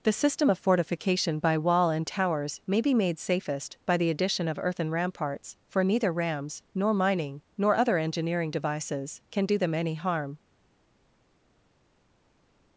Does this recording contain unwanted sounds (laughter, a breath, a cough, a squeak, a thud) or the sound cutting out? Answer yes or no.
no